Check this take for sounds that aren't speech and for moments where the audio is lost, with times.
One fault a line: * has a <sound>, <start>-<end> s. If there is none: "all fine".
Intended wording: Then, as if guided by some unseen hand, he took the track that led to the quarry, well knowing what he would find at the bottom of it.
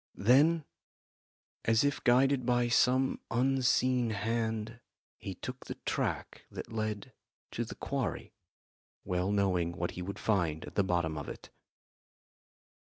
all fine